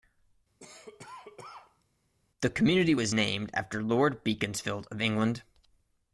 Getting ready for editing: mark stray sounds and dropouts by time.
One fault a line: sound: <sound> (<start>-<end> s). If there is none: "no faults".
sound: cough (0.6-1.8 s)